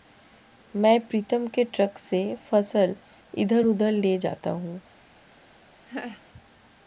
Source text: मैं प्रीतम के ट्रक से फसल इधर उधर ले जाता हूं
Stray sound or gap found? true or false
true